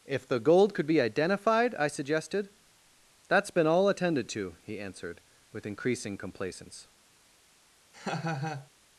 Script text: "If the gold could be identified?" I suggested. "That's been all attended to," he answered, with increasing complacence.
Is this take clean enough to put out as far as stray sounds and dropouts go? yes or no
no